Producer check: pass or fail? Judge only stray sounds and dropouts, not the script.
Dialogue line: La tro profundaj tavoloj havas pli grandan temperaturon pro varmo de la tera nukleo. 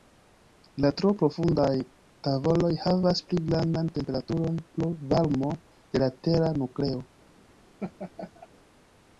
fail